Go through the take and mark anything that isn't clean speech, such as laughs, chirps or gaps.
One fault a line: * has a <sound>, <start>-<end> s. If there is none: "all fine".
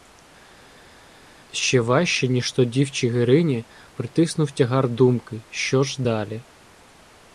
all fine